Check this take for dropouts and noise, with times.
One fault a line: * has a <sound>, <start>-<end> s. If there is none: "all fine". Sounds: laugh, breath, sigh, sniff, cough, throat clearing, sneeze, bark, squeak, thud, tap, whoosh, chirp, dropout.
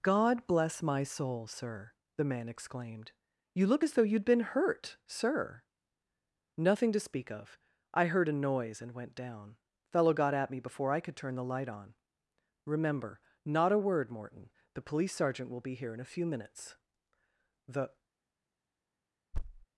* has a thud, 19.3-19.7 s